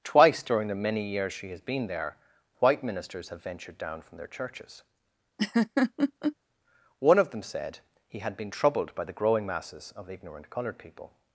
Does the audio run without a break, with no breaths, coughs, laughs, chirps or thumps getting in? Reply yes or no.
no